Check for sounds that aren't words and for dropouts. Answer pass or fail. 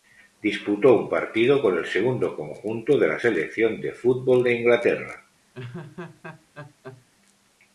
fail